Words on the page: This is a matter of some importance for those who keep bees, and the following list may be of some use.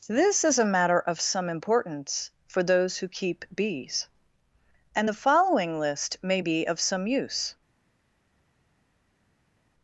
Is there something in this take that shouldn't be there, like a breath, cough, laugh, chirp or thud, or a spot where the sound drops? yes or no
no